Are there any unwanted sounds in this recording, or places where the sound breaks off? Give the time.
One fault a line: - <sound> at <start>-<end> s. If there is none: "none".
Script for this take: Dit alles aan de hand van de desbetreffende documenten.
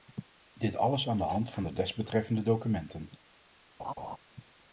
- laugh at 3.8-4.2 s